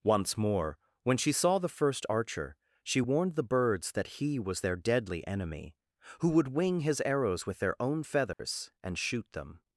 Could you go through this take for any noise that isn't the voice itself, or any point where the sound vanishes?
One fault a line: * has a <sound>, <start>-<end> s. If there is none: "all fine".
* has a dropout, 8.3-8.4 s